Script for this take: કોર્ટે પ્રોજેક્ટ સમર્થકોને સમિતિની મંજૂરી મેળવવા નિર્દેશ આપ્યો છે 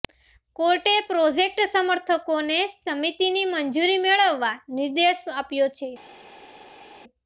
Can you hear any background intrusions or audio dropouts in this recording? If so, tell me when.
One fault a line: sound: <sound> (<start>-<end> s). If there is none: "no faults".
no faults